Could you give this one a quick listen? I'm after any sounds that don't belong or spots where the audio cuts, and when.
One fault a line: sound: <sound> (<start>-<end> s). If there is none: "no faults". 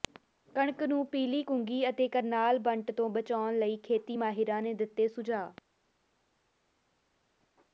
no faults